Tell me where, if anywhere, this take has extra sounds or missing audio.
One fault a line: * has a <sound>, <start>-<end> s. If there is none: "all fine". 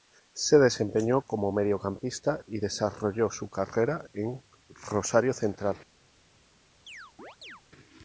* has a chirp, 6.9-7.6 s